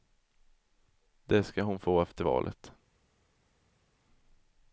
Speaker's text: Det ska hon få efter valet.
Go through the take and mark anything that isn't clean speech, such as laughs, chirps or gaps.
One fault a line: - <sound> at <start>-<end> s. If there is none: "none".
none